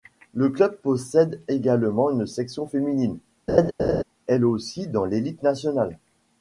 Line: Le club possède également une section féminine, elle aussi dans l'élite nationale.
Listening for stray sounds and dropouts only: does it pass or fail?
fail